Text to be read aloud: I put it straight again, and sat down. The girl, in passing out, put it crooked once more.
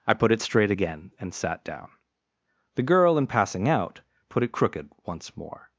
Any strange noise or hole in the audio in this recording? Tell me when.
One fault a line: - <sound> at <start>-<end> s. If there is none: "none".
none